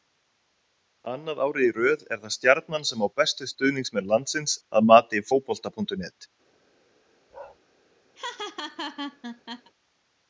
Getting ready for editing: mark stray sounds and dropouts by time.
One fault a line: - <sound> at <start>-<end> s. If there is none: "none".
- bark at 7.3-7.6 s
- laugh at 8.2-9.7 s